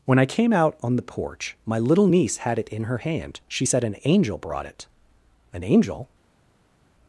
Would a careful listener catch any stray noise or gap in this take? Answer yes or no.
no